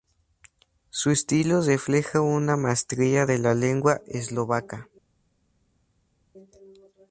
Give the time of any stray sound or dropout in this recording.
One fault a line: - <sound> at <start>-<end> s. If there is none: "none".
none